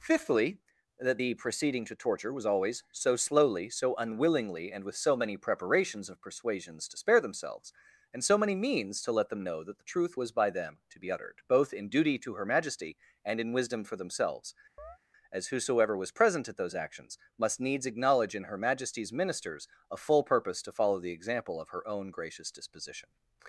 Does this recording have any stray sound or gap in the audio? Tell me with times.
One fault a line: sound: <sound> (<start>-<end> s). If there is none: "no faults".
sound: chirp (14.8-15.0 s)